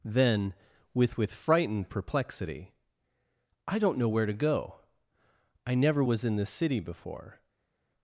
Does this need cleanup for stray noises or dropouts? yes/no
no